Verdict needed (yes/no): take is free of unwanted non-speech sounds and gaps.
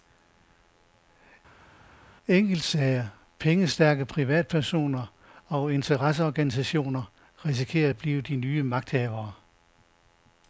yes